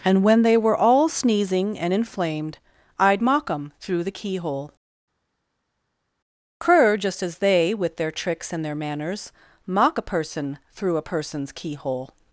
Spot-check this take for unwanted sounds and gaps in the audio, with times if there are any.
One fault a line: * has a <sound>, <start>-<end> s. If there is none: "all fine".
all fine